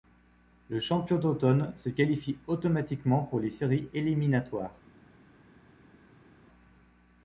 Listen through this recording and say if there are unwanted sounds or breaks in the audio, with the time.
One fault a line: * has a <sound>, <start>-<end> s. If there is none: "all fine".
all fine